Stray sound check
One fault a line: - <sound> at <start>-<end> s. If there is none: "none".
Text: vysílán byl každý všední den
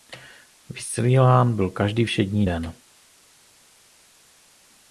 none